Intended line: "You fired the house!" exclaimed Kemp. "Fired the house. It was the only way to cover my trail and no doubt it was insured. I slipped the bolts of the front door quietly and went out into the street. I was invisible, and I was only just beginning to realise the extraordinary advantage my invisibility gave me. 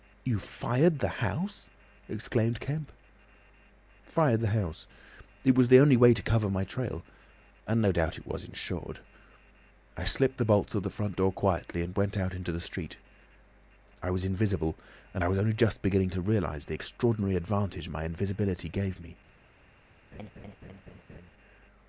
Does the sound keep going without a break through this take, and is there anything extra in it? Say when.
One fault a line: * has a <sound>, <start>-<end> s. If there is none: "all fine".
* has a laugh, 20.1-21.3 s